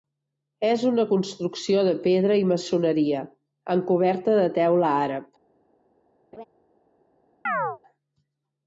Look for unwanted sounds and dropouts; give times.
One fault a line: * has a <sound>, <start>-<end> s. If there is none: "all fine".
* has a laugh, 6.3-6.4 s
* has a chirp, 7.5-7.8 s